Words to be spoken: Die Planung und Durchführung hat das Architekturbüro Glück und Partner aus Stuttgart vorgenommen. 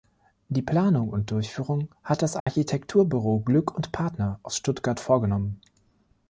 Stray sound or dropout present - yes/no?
yes